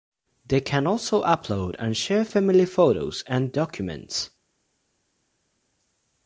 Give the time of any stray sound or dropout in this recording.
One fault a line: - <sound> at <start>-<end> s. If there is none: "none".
none